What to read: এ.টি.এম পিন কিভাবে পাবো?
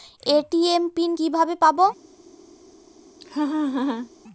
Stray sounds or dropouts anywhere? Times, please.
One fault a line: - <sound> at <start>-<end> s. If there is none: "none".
- laugh at 3.2-4.1 s